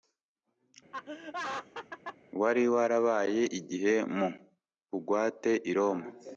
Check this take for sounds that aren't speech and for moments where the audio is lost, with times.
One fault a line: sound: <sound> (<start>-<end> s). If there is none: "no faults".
sound: laugh (0.9-2.2 s)